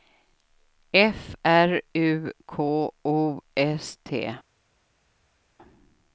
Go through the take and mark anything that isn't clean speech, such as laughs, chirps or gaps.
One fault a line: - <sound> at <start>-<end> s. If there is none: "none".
none